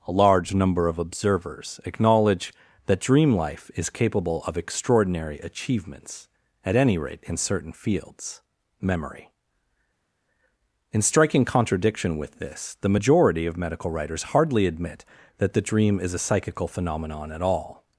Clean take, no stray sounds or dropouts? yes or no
yes